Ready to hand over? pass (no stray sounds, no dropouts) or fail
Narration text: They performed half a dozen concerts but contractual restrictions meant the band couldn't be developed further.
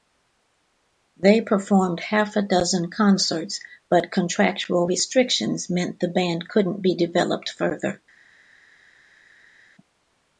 pass